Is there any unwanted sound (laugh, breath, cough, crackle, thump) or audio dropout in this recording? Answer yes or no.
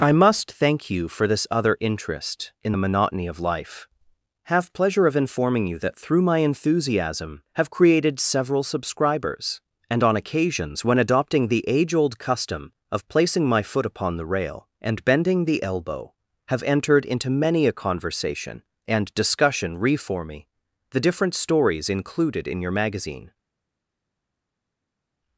no